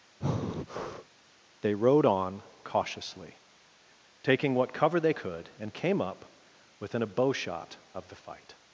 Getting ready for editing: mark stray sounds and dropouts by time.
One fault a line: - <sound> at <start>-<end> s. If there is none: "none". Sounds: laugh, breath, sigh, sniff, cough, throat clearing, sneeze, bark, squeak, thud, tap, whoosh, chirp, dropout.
- breath at 0.2-1.1 s